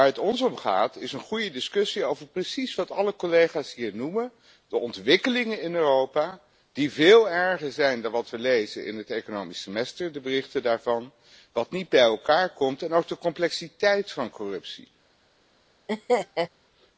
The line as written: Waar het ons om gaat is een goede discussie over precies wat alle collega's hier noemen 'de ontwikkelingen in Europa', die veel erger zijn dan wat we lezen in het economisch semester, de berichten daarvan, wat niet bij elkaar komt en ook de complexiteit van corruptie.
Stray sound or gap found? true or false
true